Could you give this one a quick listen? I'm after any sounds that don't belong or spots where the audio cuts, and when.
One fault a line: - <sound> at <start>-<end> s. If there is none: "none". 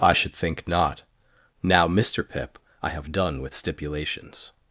none